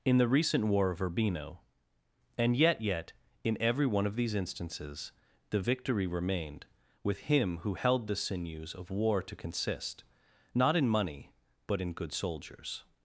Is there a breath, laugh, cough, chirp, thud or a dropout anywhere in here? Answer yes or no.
no